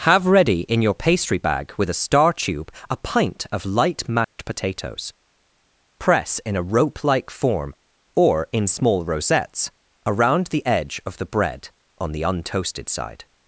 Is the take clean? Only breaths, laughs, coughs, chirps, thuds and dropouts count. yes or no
no